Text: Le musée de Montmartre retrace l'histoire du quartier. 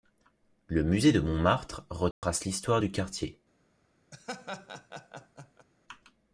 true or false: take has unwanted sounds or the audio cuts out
true